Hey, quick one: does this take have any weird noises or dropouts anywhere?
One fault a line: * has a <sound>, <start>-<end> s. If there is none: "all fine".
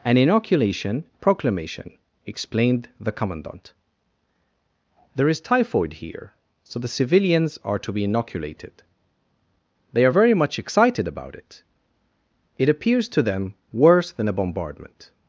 all fine